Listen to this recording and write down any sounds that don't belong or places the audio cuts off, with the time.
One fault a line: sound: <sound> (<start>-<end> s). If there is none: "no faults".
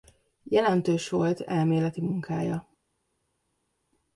no faults